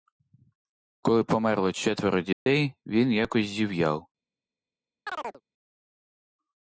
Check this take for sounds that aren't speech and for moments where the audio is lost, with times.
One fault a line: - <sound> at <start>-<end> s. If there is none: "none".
- dropout at 2.3-2.5 s
- chirp at 5.1-5.4 s